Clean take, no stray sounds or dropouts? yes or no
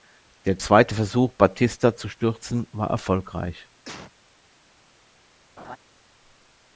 no